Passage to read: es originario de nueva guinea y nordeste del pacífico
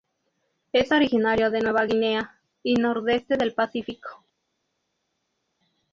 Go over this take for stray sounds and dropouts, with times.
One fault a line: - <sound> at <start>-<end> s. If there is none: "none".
none